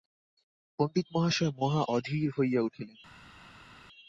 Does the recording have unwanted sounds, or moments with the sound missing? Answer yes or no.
no